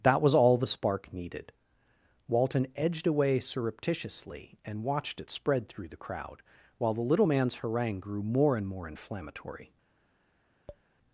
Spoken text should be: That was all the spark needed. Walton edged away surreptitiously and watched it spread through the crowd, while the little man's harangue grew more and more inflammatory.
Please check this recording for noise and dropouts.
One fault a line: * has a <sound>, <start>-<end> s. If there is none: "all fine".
* has a tap, 10.7-10.8 s